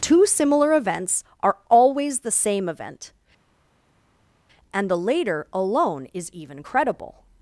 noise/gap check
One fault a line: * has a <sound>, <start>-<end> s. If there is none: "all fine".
all fine